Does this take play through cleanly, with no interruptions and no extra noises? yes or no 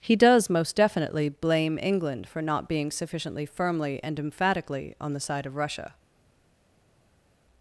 yes